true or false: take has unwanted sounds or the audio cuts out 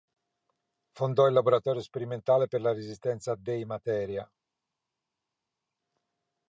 false